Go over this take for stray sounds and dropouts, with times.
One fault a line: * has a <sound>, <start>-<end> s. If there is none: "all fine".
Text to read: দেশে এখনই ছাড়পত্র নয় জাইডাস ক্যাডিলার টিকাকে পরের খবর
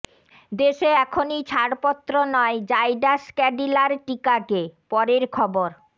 all fine